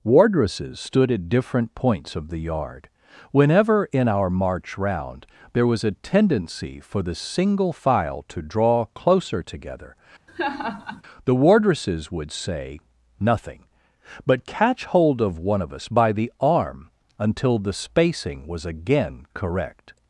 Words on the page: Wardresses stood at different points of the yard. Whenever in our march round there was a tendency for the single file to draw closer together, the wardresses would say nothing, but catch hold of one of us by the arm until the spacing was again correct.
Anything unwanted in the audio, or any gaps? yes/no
yes